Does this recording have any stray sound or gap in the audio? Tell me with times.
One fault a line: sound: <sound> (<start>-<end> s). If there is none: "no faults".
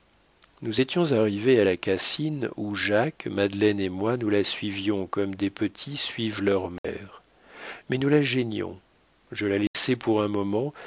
sound: dropout (6.8-6.8 s)
sound: dropout (9.7-9.7 s)